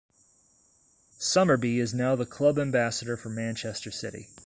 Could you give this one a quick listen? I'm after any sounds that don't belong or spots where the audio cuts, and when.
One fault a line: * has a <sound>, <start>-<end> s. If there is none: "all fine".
all fine